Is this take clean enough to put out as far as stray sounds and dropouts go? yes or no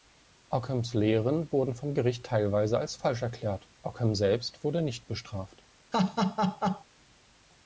no